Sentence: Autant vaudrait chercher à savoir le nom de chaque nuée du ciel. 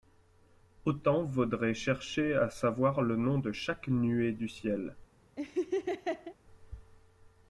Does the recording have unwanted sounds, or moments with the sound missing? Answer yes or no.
yes